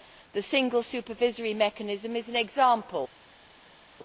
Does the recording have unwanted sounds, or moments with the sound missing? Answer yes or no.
no